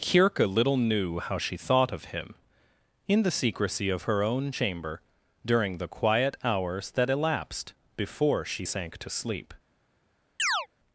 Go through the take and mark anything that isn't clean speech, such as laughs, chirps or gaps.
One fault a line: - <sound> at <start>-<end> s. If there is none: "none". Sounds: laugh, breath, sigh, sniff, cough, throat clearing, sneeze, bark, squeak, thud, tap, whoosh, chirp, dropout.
- chirp at 10.4-10.7 s